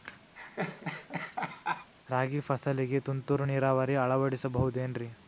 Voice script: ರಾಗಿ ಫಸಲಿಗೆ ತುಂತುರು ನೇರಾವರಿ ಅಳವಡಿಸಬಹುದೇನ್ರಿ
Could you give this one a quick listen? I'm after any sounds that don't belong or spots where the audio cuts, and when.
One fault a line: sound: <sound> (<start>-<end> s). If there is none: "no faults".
sound: laugh (0.4-1.9 s)